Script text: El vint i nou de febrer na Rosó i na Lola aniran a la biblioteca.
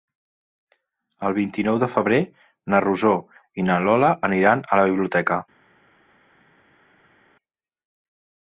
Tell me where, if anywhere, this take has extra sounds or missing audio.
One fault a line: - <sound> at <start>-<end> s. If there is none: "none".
none